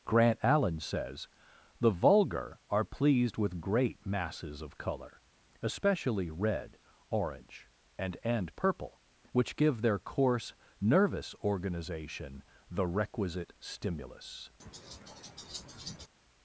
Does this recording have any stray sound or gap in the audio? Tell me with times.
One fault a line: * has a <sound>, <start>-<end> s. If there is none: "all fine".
* has a laugh, 14.6-16.1 s